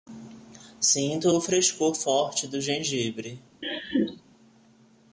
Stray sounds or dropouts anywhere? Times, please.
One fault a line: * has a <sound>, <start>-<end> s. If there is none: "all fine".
* has a laugh, 3.6-4.2 s